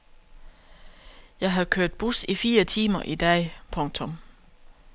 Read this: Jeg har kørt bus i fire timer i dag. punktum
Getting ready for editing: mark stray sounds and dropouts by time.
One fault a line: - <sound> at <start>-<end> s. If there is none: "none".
none